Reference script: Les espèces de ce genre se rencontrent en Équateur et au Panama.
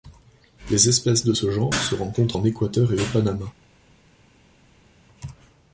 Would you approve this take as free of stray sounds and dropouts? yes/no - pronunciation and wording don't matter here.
yes